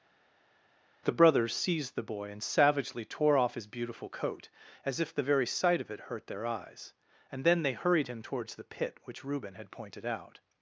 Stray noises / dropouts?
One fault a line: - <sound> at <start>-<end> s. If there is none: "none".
none